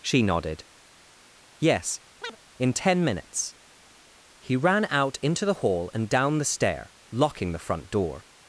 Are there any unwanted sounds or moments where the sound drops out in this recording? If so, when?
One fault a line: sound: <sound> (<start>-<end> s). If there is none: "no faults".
sound: chirp (2.2-2.4 s)